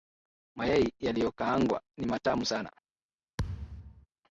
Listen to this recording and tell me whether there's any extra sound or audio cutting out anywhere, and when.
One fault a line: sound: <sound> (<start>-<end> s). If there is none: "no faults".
sound: thud (3.4-4.1 s)